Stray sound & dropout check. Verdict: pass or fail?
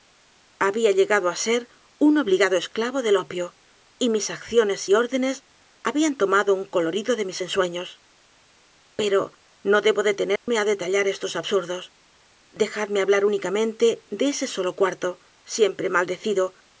fail